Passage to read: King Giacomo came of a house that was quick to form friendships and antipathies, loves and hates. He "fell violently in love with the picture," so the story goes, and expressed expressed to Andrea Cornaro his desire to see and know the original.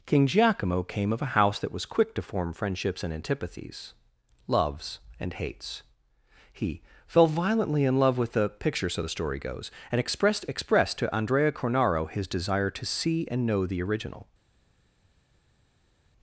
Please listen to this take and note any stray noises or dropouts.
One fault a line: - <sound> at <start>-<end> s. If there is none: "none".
none